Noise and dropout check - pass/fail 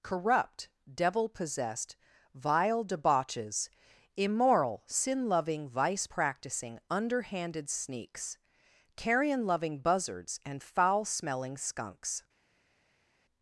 pass